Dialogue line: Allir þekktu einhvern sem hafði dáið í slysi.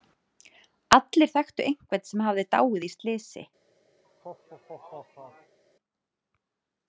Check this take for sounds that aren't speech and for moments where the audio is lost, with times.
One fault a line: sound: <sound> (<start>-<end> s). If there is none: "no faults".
sound: laugh (4.0-5.6 s)